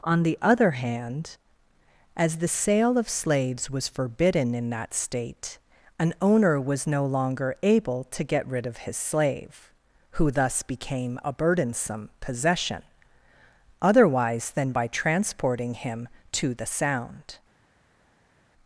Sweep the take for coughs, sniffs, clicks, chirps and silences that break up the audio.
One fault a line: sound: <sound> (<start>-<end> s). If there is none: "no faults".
no faults